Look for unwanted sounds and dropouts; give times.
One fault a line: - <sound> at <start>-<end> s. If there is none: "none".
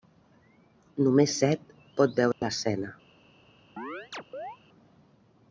- dropout at 2.3-2.4 s
- chirp at 3.8-4.6 s